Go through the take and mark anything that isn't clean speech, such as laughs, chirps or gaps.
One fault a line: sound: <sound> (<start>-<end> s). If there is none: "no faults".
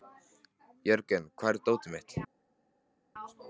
no faults